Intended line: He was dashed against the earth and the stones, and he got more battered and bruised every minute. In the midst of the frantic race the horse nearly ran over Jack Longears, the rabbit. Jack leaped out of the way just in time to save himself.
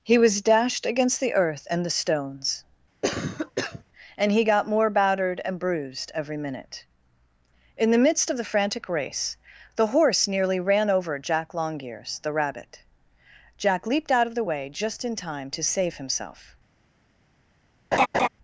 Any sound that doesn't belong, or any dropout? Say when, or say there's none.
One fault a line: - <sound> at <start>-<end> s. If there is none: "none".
- cough at 3.0-3.8 s
- laugh at 17.9-18.3 s